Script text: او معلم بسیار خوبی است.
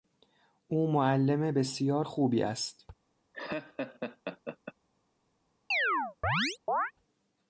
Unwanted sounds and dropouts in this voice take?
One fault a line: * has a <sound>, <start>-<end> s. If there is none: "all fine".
* has a laugh, 3.3-4.7 s
* has a chirp, 5.7-6.9 s